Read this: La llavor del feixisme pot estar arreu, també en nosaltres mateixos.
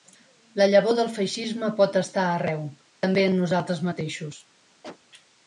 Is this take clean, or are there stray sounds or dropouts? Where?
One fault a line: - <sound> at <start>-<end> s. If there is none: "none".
- cough at 4.8-5.0 s